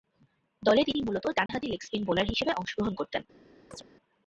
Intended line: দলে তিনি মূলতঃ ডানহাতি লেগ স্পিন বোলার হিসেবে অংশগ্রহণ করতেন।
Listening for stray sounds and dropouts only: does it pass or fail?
fail